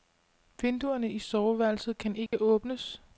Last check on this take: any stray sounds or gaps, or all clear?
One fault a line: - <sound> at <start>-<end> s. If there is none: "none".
- dropout at 2.3-2.3 s